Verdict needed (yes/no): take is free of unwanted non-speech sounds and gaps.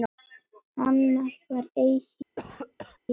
no